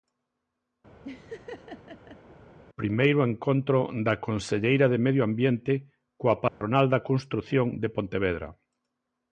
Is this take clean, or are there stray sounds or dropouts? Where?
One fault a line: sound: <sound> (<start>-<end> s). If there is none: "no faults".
sound: laugh (1.0-2.4 s)
sound: dropout (6.5-6.6 s)